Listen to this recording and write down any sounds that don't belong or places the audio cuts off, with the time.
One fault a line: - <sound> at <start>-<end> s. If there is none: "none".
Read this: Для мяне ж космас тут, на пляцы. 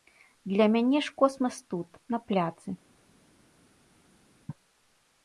none